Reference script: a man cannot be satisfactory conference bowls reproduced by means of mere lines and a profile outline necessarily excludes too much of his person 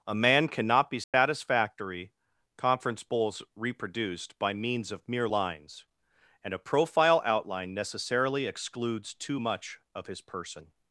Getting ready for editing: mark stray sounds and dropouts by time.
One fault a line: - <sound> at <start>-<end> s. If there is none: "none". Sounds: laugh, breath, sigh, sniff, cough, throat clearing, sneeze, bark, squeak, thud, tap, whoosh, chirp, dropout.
- dropout at 1.0-1.1 s